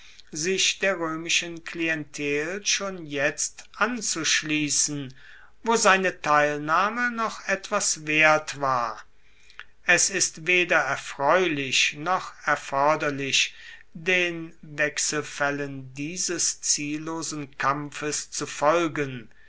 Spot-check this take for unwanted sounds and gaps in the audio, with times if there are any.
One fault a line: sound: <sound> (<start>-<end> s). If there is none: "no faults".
no faults